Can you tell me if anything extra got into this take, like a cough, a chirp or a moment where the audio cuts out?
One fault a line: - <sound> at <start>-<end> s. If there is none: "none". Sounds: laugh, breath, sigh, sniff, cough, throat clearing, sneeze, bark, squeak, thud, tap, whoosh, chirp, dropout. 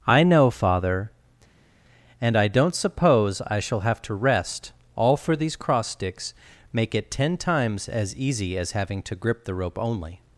none